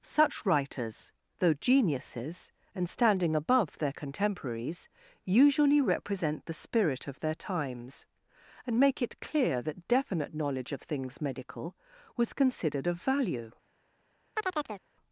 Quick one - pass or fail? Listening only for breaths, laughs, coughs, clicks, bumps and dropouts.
fail